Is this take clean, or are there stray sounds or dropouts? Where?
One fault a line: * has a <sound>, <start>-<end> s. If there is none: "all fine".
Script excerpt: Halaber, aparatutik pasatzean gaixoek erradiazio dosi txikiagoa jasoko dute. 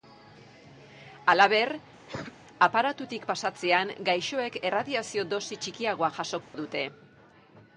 * has a cough, 2.1-2.3 s
* has a dropout, 6.4-6.5 s